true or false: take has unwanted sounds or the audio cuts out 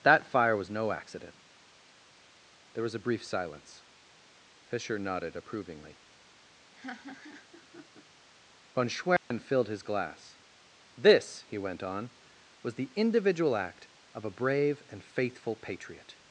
true